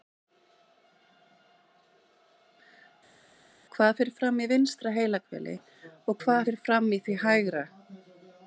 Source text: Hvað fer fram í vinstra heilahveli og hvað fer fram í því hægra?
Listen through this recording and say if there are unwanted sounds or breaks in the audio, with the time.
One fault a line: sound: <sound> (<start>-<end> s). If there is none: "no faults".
no faults